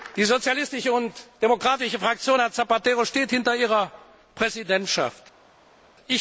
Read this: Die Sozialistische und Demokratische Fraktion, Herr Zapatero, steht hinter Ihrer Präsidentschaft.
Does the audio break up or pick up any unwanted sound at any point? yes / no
no